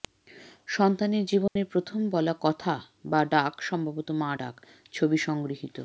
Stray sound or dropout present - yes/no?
yes